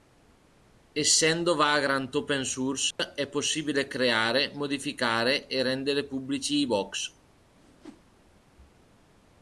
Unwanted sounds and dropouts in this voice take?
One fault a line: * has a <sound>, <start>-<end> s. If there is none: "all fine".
* has a dropout, 2.9-3.0 s
* has a whoosh, 7.5-8.1 s